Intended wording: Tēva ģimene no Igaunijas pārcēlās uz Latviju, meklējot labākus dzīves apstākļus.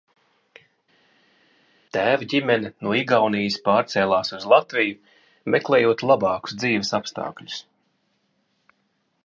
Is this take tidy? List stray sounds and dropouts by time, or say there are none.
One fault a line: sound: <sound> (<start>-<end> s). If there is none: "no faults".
no faults